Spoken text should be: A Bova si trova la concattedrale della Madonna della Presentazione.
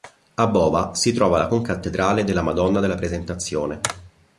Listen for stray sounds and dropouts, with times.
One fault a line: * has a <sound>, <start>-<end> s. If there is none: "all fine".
all fine